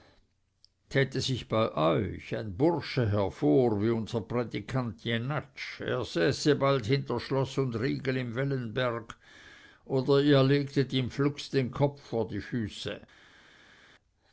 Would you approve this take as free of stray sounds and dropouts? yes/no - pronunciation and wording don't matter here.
yes